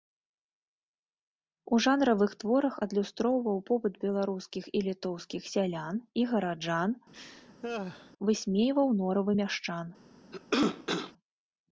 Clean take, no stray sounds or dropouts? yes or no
no